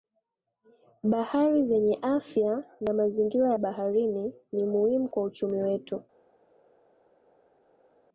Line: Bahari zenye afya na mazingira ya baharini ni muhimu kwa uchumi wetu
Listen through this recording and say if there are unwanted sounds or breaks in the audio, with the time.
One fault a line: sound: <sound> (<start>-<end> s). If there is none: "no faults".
no faults